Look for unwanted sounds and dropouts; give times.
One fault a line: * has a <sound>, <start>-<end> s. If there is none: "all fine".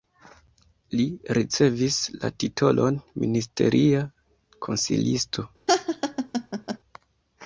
* has a laugh, 5.7-6.8 s